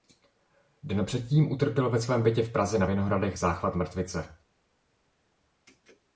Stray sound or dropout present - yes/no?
no